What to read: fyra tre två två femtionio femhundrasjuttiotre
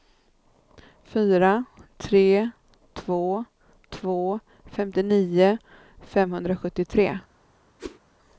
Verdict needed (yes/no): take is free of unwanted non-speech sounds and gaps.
no